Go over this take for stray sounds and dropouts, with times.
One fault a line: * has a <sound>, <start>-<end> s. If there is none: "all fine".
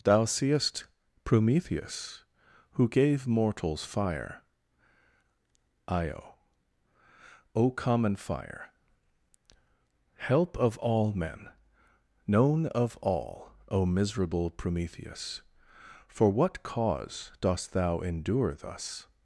all fine